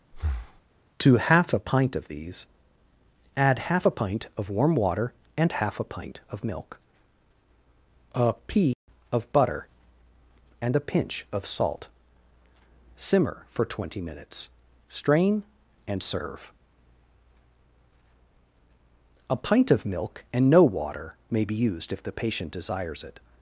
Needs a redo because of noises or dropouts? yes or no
yes